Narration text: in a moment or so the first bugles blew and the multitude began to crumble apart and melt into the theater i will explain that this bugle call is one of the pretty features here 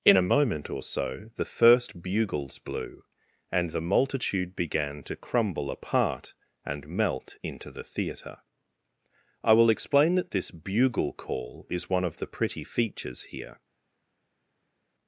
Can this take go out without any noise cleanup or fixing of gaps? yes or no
yes